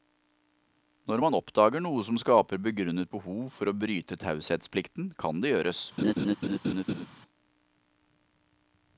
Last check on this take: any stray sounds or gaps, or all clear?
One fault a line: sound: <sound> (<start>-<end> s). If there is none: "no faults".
sound: laugh (6.0-7.1 s)